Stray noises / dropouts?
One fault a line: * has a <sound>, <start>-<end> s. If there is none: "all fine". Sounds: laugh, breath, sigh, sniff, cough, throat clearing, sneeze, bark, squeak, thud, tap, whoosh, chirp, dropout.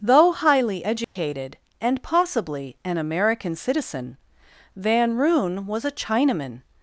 * has a dropout, 1.0-1.2 s